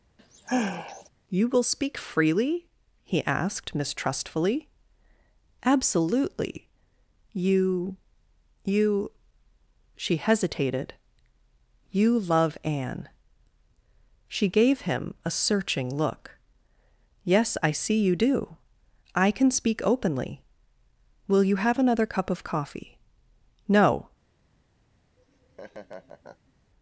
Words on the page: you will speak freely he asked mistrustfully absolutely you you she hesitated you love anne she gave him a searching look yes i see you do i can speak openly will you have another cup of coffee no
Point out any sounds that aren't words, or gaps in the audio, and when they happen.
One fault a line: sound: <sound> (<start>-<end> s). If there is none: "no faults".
sound: sigh (0.2-1.1 s)
sound: laugh (25.2-26.5 s)